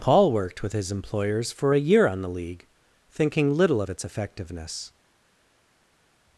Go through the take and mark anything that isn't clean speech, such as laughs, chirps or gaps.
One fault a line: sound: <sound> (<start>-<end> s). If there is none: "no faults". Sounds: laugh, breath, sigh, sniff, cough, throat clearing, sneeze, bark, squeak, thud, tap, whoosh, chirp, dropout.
no faults